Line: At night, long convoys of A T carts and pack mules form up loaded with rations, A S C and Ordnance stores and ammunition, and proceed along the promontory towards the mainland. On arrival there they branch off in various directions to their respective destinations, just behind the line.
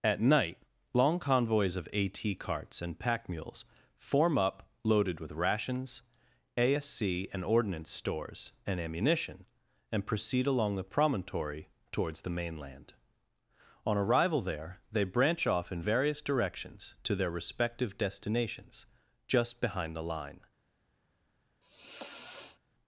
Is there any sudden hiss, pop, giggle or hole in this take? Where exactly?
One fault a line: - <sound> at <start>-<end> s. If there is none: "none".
- sigh at 21.6-22.6 s